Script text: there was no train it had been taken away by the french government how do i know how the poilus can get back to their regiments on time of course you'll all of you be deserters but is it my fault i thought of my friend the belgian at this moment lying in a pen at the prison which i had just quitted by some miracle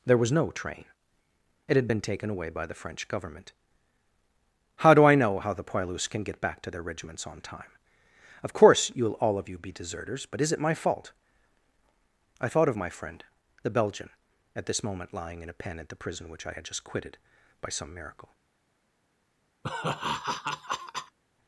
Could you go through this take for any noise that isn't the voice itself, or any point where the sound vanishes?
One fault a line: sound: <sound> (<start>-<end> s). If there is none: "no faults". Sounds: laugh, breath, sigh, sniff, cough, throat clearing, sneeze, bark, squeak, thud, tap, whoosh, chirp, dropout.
sound: laugh (19.6-21.2 s)